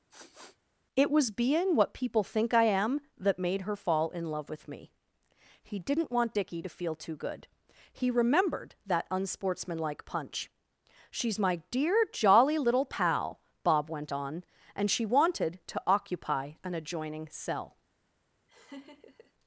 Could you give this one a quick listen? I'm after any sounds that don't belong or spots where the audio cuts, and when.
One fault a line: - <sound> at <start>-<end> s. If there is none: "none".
- sniff at 0.1-0.6 s
- laugh at 18.5-19.3 s